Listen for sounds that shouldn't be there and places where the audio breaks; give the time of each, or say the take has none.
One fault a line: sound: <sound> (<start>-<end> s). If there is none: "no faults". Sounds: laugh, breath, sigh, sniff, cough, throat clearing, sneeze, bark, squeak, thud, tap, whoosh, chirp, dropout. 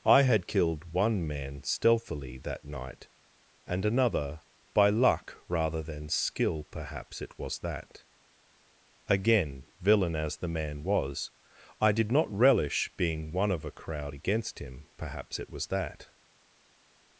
no faults